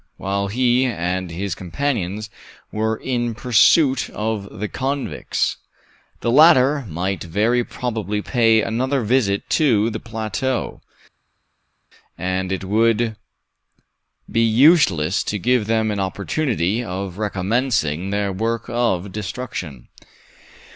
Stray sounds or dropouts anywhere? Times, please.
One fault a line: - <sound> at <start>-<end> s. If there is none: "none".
none